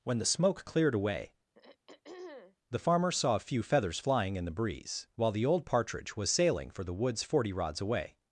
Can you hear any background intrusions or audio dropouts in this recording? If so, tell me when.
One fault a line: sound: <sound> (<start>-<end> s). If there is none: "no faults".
sound: throat clearing (1.5-2.6 s)